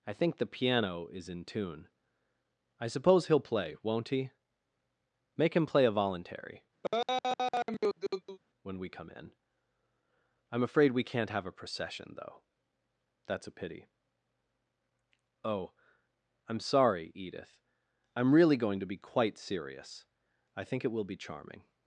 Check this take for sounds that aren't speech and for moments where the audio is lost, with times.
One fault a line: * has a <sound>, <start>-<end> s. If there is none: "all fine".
* has a laugh, 6.8-8.4 s